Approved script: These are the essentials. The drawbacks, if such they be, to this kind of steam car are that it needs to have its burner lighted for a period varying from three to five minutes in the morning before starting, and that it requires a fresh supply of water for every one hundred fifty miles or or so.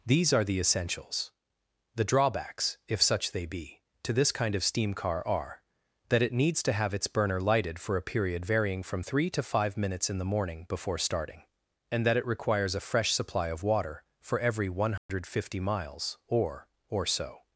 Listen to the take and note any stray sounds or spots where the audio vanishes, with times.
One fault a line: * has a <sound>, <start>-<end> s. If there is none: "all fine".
* has a dropout, 15.0-15.1 s